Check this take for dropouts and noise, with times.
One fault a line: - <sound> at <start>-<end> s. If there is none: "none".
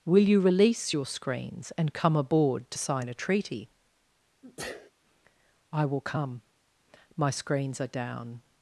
- sneeze at 4.4-4.9 s